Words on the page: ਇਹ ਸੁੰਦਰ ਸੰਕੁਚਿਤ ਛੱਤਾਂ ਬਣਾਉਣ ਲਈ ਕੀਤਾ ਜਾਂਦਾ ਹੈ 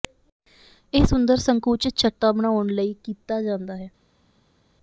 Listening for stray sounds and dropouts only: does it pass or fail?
pass